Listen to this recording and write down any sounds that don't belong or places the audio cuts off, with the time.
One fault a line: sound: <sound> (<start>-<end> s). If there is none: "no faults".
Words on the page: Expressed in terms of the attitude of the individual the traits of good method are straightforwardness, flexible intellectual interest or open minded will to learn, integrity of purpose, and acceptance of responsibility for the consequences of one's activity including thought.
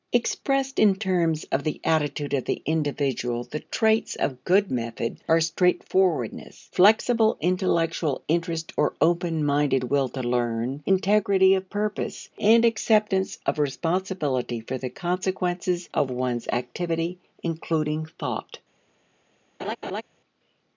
sound: laugh (19.6-20.0 s)